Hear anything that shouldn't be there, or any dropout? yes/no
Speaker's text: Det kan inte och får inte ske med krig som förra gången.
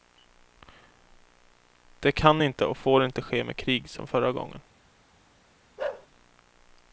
yes